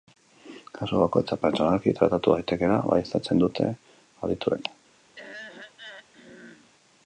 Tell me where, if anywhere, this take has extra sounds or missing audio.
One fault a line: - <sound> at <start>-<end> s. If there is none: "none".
- throat clearing at 5.2-6.7 s